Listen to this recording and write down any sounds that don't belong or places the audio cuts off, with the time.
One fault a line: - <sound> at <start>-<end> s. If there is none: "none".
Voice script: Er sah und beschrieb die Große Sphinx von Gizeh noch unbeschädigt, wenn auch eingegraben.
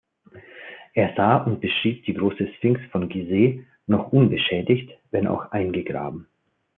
none